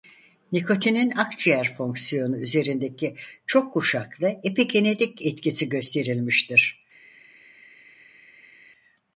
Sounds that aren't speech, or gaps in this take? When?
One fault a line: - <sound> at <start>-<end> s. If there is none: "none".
none